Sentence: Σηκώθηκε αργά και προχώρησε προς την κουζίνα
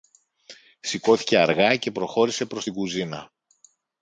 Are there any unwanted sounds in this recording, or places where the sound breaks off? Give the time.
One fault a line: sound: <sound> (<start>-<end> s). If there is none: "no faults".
no faults